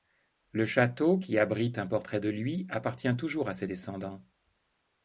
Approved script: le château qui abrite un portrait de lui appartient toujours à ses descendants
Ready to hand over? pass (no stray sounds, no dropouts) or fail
pass